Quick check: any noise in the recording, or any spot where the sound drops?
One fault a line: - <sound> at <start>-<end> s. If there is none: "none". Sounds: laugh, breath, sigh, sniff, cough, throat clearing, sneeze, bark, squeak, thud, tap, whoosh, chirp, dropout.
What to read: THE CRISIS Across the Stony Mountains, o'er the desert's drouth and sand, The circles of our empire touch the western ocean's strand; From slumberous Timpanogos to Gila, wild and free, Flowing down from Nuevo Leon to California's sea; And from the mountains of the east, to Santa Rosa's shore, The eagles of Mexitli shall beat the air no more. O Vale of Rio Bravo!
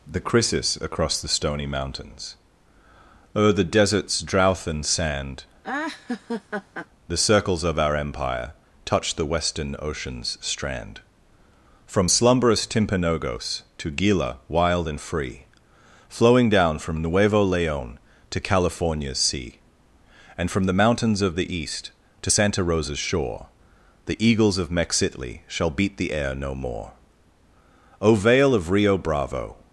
- laugh at 5.6-6.9 s